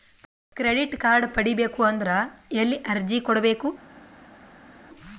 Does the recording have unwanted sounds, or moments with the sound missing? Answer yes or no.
no